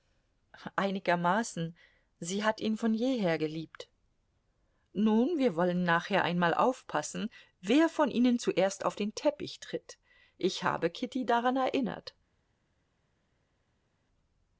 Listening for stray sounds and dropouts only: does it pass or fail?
pass